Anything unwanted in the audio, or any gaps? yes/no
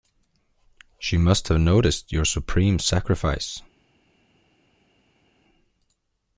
no